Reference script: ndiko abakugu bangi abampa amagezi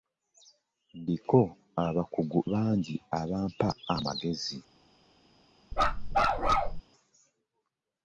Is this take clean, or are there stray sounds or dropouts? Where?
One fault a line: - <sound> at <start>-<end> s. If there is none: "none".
- bark at 5.7-6.8 s